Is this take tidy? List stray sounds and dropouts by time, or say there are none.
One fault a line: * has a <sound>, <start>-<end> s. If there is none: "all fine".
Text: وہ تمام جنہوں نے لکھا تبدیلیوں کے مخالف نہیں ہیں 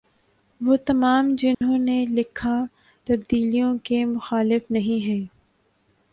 * has a dropout, 1.5-1.6 s